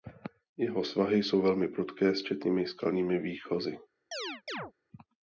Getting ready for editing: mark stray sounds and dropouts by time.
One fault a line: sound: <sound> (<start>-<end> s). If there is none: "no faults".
sound: chirp (4.1-4.7 s)